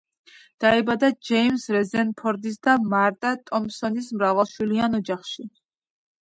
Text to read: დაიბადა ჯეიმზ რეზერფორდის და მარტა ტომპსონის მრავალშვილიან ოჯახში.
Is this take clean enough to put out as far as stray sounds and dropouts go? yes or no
yes